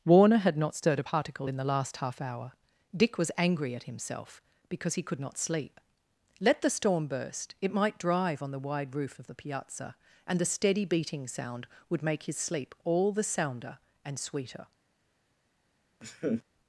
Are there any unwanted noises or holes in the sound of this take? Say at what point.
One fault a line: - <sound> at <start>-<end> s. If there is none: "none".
- laugh at 16.0-16.4 s